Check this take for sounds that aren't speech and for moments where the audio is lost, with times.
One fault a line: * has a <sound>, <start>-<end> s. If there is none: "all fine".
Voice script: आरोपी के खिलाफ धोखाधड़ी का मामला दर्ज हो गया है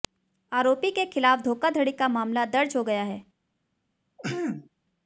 * has a throat clearing, 4.2-4.7 s